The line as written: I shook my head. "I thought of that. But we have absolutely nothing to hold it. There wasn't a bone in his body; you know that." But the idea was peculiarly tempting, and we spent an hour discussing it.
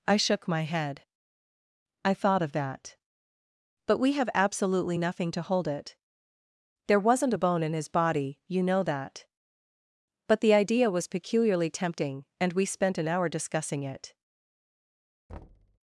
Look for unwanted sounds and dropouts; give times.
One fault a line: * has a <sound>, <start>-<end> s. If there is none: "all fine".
* has a thud, 15.3-15.8 s